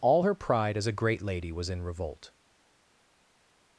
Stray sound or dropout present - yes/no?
no